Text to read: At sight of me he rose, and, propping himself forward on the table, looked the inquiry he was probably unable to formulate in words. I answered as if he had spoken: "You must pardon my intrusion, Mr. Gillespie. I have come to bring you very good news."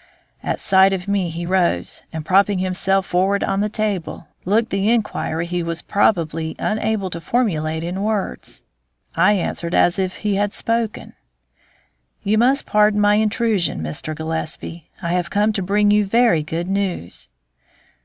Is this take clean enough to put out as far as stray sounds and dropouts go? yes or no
yes